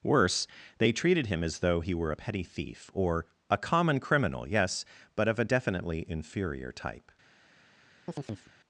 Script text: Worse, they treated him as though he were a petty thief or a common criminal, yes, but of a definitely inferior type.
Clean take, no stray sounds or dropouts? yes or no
no